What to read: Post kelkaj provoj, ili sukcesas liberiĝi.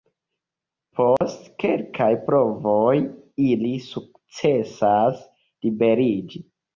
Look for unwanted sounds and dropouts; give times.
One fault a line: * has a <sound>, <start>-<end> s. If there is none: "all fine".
* has a dropout, 1.2-1.2 s